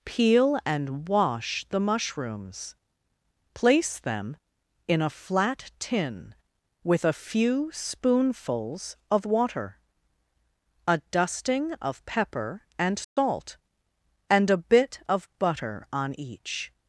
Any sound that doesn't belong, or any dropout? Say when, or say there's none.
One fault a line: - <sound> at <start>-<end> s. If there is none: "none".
- dropout at 13.0-13.2 s